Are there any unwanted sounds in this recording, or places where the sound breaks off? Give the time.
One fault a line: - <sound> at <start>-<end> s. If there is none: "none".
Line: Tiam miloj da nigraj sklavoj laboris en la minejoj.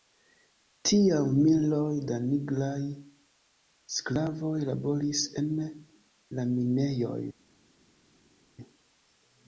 none